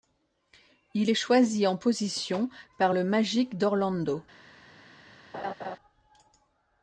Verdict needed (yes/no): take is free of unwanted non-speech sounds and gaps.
no